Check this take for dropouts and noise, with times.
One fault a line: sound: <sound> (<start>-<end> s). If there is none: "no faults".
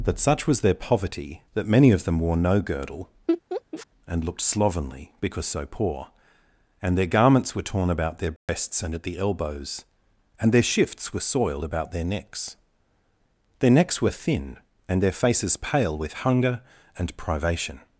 sound: laugh (3.3-3.9 s)
sound: dropout (8.4-8.5 s)